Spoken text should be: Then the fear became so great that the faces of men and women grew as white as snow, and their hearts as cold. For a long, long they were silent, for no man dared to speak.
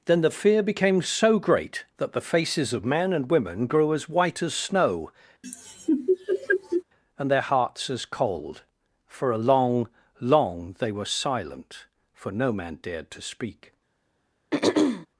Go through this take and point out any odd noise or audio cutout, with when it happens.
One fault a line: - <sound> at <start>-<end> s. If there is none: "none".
- laugh at 5.4-6.8 s
- throat clearing at 14.5-15.1 s